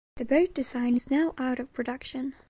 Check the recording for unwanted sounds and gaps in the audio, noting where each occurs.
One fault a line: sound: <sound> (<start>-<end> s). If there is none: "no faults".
no faults